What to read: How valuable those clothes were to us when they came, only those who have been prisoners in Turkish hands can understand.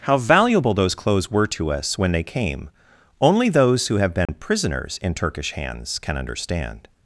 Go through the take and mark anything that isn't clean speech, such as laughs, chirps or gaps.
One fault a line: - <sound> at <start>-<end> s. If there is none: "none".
- dropout at 4.3-4.3 s